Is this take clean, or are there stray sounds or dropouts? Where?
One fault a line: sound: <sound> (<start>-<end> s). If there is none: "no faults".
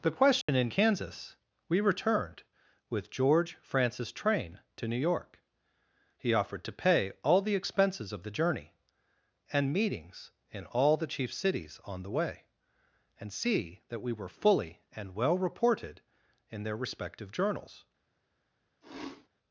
sound: dropout (0.4-0.5 s)
sound: sneeze (18.8-19.3 s)